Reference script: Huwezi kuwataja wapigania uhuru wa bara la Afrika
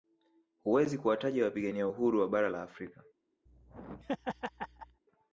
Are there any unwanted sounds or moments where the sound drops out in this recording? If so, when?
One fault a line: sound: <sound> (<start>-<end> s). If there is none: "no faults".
sound: laugh (3.5-5.0 s)